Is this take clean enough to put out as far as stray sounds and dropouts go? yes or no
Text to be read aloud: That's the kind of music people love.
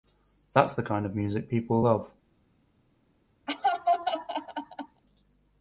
no